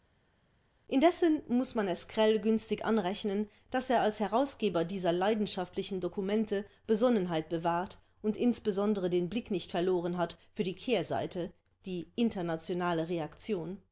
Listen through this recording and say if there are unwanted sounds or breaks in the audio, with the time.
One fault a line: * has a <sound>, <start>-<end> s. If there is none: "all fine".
all fine